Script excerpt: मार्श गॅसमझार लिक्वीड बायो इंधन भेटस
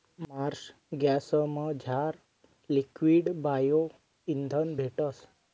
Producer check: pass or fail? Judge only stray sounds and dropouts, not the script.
pass